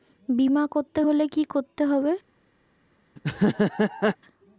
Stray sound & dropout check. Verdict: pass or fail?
fail